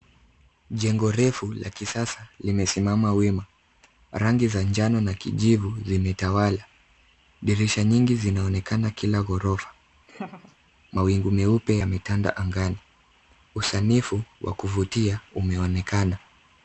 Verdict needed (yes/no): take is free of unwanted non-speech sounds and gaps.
no